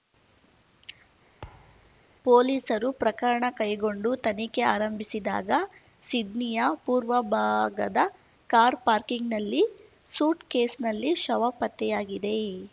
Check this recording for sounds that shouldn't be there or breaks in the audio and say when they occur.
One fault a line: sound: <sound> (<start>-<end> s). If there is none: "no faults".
sound: thud (1.4-2.1 s)